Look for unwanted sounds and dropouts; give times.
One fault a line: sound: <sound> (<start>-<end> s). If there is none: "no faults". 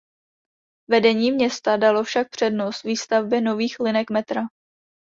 no faults